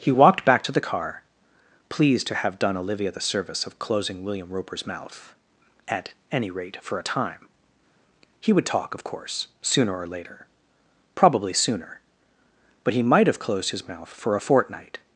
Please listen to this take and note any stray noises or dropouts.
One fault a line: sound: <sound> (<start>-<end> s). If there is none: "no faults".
no faults